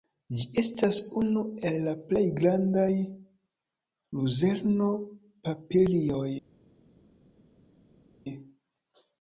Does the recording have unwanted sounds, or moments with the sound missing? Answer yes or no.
no